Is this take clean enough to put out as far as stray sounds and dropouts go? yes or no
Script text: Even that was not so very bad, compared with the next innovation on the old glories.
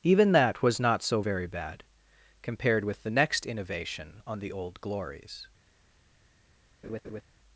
no